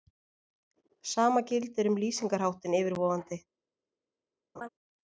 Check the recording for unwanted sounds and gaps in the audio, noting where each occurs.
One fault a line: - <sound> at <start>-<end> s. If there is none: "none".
- laugh at 4.6-4.7 s